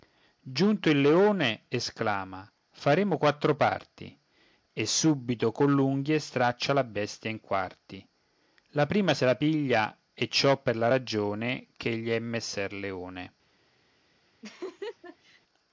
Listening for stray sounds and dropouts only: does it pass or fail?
fail